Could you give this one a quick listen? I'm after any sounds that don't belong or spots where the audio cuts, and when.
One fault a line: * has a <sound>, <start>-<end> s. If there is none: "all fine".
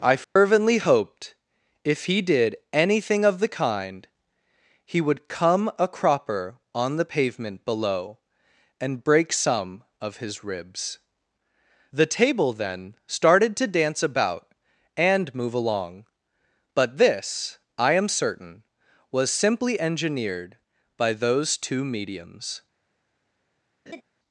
* has a dropout, 0.2-0.4 s
* has a laugh, 23.9-24.0 s